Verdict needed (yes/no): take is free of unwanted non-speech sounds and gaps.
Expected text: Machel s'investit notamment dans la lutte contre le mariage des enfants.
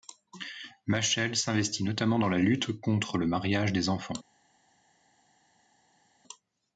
yes